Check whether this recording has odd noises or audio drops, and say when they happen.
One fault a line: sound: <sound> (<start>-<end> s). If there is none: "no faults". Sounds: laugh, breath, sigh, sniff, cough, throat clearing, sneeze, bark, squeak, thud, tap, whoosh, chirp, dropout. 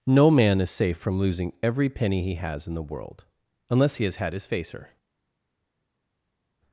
no faults